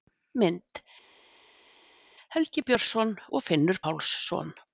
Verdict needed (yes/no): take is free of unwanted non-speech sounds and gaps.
yes